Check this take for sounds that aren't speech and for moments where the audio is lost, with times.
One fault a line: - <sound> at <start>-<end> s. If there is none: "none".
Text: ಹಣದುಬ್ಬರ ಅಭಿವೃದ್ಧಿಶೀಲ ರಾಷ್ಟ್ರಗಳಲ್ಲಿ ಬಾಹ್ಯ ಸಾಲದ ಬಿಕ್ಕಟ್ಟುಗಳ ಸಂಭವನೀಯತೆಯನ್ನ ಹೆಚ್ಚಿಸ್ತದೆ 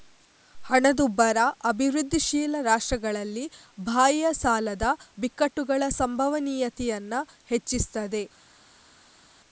none